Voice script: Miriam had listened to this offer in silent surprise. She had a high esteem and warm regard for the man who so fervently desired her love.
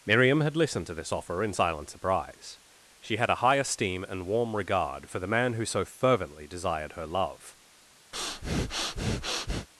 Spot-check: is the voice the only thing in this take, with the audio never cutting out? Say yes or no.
no